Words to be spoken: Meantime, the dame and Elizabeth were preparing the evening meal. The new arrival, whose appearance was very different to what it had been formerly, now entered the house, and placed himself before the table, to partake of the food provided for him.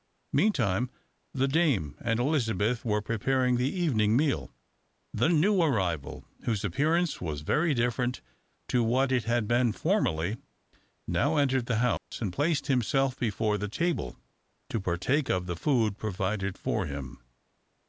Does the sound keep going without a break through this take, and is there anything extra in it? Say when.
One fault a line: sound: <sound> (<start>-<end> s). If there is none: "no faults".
sound: dropout (12.0-12.1 s)